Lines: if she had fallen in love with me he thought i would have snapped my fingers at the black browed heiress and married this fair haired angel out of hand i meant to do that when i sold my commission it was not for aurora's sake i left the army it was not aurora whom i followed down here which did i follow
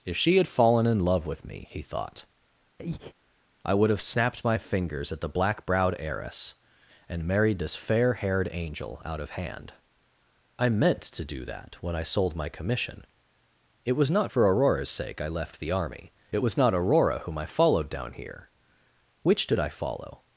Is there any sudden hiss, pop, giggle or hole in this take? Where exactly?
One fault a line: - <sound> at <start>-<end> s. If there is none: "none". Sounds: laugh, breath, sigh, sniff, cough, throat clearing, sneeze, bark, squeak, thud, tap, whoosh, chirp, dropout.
- breath at 2.8-3.1 s